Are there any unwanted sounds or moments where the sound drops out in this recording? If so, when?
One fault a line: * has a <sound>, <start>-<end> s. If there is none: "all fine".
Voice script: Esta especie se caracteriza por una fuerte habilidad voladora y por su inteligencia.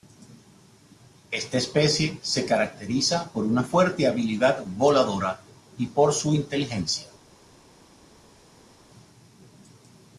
all fine